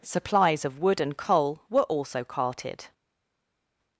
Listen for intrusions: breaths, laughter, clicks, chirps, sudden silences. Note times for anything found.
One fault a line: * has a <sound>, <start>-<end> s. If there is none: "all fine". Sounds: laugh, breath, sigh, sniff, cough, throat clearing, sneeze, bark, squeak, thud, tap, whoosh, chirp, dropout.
all fine